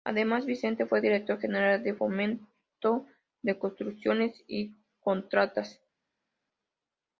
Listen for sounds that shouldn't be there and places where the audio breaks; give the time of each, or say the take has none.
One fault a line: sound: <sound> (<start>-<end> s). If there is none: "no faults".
no faults